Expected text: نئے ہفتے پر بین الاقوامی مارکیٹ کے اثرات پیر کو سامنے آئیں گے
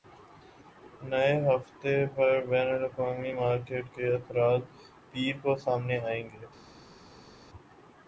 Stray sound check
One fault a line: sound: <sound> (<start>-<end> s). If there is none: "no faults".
no faults